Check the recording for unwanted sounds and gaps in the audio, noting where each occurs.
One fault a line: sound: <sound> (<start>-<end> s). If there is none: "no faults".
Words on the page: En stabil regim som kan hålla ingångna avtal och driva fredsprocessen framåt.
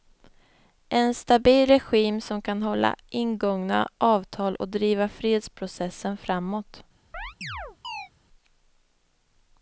sound: chirp (7.1-8.1 s)